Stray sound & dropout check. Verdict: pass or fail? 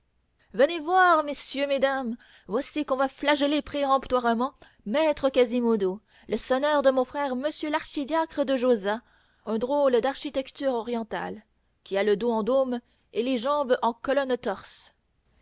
pass